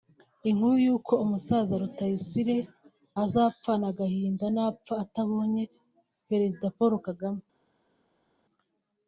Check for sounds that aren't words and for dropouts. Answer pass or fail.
pass